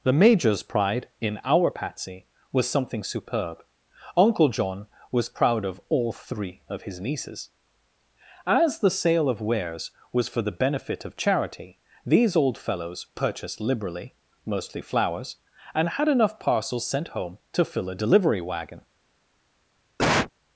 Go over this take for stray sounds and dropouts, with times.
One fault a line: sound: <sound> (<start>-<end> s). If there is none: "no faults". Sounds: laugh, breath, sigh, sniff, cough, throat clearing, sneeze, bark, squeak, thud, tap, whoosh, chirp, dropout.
sound: cough (20.0-20.3 s)